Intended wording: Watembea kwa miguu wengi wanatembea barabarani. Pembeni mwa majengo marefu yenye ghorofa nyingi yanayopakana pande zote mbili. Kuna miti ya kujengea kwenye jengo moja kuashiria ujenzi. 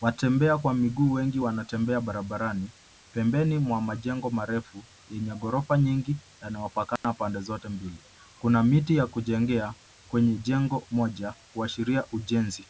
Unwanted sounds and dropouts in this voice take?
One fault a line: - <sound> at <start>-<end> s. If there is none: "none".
- dropout at 7.0-7.0 s